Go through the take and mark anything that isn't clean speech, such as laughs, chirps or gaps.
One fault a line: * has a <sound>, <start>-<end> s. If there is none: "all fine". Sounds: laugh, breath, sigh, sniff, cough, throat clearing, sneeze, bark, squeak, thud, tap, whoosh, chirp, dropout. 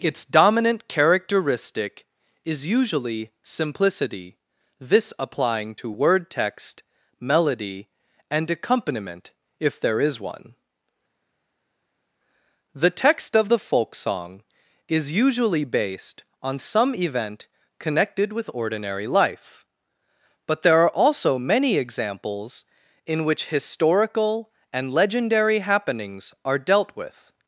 all fine